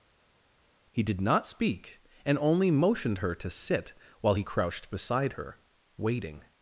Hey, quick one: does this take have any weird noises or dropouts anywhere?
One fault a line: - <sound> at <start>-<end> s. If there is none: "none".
none